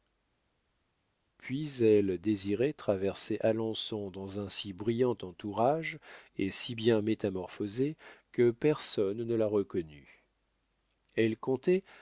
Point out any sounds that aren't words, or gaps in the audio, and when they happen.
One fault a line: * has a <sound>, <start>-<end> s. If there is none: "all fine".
all fine